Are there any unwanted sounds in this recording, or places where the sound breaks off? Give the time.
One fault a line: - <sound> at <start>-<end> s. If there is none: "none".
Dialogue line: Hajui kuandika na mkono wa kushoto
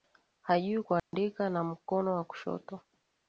- dropout at 1.0-1.1 s